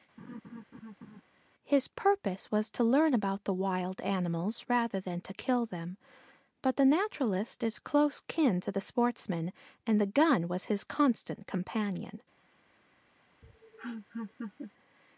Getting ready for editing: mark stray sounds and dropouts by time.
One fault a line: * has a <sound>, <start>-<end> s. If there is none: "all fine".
* has a laugh, 0.2-1.2 s
* has a laugh, 13.4-14.7 s